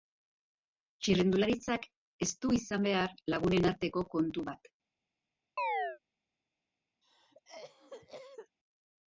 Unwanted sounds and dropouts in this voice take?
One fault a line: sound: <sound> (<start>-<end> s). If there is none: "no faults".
sound: chirp (5.6-6.0 s)
sound: cough (7.0-8.6 s)